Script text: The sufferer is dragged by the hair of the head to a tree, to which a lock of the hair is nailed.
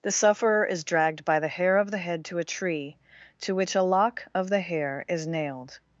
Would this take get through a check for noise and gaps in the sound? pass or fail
pass